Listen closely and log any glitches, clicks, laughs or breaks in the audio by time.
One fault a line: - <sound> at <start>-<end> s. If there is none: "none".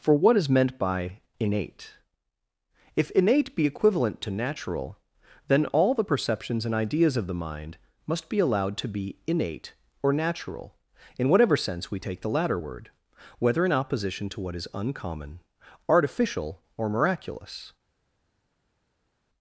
none